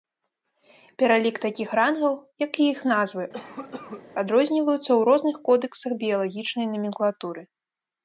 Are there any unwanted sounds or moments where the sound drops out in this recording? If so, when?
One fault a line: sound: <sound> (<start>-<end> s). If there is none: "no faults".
sound: cough (3.3-4.0 s)